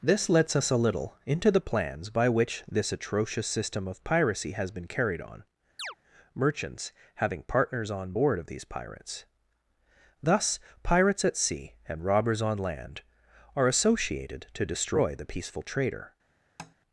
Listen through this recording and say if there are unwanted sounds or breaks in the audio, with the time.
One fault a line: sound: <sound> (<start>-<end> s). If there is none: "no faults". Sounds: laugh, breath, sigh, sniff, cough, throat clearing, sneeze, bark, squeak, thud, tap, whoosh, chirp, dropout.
sound: chirp (5.8-6.0 s)
sound: tap (16.6-16.8 s)